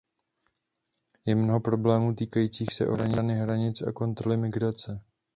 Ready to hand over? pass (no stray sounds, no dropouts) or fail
pass